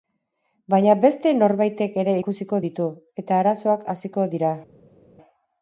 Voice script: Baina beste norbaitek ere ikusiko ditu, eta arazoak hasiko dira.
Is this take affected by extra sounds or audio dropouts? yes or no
no